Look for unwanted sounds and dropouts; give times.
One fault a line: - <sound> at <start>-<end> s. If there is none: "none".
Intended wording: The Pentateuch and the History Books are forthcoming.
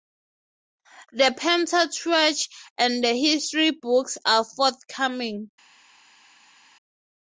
none